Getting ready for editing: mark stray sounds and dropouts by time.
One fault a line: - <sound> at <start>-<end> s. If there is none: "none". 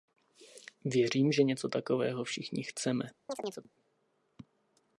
- chirp at 3.3-3.7 s